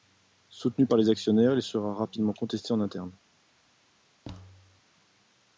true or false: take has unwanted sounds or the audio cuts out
true